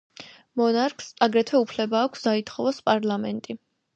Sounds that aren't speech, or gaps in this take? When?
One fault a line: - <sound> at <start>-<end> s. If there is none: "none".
none